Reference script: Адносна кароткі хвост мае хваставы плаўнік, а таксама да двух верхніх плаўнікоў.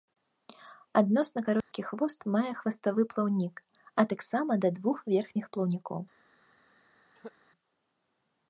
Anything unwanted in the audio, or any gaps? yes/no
yes